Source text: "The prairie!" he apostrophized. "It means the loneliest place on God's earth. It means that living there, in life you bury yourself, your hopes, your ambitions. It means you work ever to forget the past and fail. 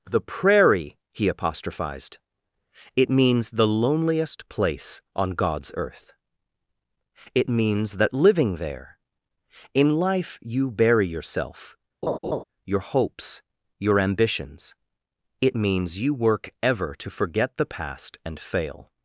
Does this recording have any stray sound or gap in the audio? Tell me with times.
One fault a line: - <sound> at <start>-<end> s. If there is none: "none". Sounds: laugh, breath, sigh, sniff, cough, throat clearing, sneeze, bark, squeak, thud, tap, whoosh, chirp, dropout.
- laugh at 12.0-12.4 s